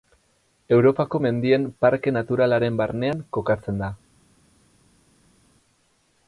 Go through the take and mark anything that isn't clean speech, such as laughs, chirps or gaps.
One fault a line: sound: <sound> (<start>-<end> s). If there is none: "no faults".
no faults